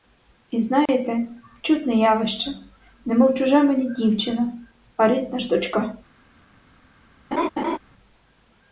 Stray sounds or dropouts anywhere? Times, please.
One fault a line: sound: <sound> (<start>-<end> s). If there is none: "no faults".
sound: dropout (0.9-0.9 s)
sound: laugh (7.3-7.8 s)